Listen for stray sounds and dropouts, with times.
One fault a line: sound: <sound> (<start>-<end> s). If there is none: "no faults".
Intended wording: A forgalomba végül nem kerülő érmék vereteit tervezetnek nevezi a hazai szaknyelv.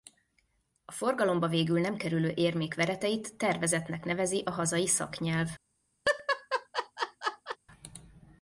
sound: laugh (6.0-7.6 s)